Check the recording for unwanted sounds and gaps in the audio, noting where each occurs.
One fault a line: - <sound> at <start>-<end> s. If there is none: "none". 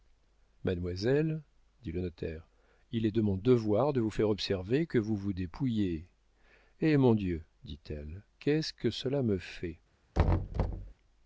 - thud at 10.1-10.9 s